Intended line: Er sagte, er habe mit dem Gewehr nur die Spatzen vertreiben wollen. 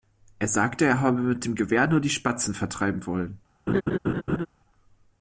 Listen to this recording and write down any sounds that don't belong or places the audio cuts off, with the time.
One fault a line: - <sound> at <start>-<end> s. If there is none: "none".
- laugh at 3.7-4.5 s